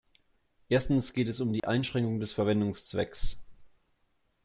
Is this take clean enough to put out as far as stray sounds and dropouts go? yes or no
no